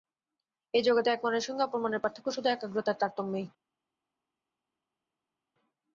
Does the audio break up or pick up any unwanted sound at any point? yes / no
no